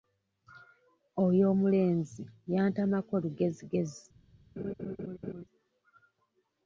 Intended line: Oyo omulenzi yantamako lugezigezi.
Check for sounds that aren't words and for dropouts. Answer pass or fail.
fail